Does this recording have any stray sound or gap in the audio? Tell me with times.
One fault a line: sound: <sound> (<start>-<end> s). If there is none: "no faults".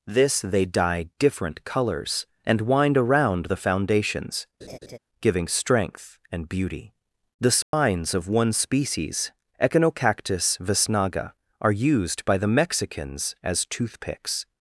sound: laugh (4.6-5.0 s)
sound: dropout (7.6-7.7 s)